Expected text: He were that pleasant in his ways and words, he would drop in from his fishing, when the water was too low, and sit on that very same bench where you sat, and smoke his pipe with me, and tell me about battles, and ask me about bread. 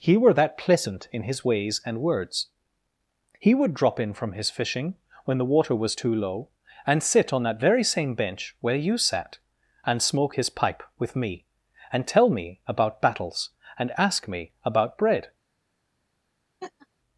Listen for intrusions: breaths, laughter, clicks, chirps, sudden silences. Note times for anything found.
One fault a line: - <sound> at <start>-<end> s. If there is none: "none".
- laugh at 16.6-16.9 s